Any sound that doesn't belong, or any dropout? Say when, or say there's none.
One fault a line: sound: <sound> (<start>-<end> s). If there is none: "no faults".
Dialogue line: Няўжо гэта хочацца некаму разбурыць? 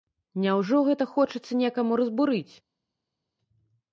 no faults